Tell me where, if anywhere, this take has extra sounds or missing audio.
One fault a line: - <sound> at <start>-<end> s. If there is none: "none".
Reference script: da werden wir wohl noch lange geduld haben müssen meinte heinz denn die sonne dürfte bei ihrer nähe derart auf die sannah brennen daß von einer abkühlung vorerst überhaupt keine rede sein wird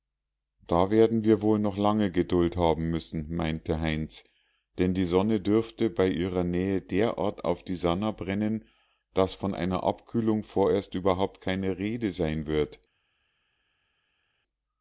none